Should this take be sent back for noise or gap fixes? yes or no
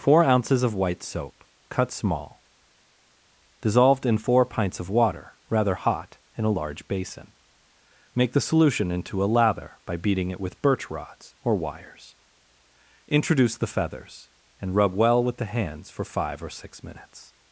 no